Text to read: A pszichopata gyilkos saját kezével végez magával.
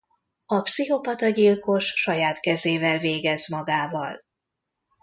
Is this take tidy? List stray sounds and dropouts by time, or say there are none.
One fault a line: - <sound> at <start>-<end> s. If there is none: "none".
none